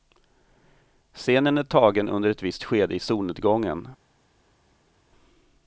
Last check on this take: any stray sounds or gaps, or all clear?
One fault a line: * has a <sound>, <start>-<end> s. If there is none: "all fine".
all fine